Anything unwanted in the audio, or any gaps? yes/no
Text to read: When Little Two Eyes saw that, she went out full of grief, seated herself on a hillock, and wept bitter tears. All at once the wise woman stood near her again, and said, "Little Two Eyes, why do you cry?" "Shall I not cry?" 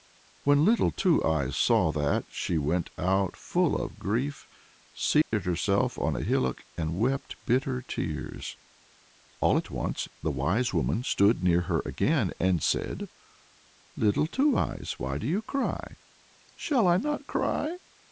yes